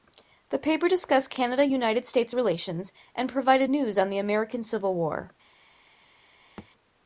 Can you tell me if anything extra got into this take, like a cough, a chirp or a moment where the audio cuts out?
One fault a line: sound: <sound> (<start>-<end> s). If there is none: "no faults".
sound: thud (6.6-6.7 s)